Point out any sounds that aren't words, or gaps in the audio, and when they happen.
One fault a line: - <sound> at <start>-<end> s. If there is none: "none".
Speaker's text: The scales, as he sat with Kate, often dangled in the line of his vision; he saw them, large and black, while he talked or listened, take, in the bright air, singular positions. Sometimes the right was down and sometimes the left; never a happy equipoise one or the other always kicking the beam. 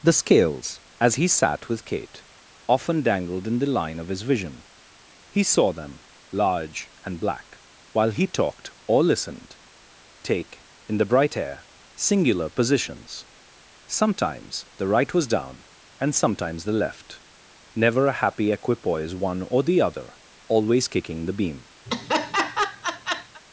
- laugh at 21.9-23.4 s